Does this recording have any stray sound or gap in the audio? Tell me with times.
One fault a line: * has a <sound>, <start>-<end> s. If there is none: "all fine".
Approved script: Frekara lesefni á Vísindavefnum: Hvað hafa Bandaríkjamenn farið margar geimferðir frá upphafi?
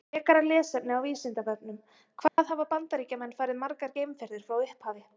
* has a dropout, 2.3-2.4 s